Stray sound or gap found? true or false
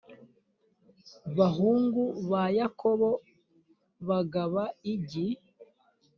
false